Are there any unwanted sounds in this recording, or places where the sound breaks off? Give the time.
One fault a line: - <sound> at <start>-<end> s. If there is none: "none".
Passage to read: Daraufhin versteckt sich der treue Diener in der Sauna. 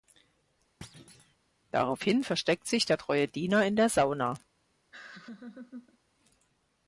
- thud at 0.8-1.4 s
- laugh at 4.9-6.0 s